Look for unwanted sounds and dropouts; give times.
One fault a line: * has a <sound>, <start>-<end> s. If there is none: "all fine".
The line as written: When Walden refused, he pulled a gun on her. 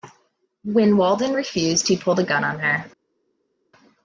all fine